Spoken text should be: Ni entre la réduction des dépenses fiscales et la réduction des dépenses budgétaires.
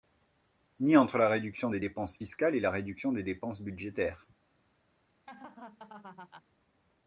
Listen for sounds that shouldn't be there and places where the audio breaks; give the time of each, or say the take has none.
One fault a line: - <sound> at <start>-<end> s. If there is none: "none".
- laugh at 5.3-6.4 s